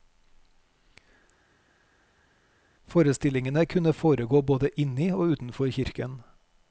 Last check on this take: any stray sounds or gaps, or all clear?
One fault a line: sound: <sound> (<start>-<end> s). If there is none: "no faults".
no faults